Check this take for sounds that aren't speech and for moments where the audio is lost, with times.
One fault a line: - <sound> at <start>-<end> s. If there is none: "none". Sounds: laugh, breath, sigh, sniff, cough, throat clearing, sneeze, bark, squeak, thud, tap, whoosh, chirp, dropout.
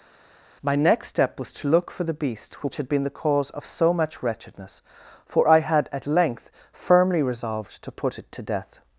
none